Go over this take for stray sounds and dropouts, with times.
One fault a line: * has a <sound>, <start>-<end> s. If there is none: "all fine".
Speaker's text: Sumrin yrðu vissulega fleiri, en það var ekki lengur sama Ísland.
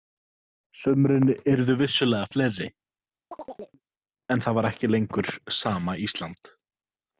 * has a chirp, 3.3-3.8 s